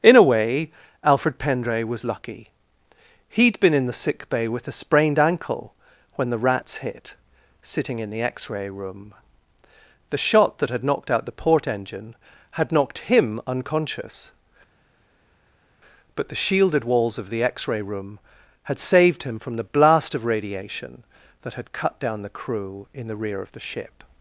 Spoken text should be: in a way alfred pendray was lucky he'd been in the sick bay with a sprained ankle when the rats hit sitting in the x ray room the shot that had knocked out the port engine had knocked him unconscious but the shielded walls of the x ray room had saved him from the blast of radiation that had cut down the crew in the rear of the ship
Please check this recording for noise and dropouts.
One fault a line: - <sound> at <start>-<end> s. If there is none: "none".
none